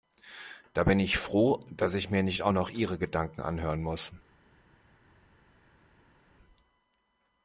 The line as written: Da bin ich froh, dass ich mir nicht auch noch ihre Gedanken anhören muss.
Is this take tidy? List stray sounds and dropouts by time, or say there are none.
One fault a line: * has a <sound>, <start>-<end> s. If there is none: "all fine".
all fine